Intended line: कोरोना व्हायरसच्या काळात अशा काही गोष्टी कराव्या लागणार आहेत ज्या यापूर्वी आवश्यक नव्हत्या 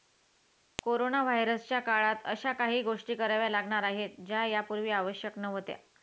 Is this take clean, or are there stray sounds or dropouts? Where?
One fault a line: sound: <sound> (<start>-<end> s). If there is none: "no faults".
no faults